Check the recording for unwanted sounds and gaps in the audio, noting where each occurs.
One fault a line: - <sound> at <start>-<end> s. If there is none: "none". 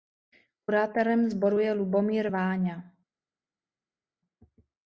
none